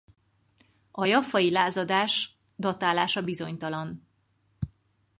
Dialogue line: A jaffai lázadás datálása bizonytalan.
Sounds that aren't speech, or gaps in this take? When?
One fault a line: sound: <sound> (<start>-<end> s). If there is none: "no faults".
no faults